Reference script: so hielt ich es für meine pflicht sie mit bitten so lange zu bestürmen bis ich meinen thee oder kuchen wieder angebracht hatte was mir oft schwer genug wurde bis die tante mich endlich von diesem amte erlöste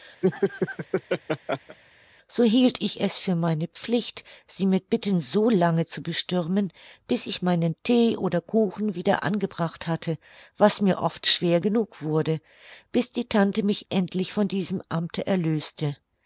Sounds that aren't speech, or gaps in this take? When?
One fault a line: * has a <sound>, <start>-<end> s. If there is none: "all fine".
* has a laugh, 0.2-1.8 s